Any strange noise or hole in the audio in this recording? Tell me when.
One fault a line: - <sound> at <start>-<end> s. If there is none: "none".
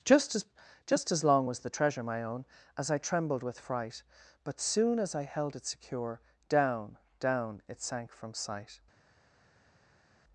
none